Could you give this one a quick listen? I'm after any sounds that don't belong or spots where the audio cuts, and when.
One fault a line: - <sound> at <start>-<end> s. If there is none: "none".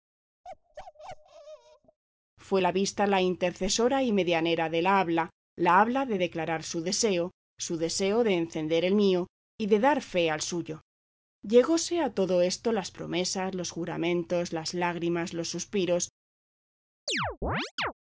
- bark at 0.4-2.0 s
- chirp at 17.1-17.9 s